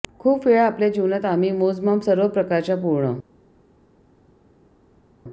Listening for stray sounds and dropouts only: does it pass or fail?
pass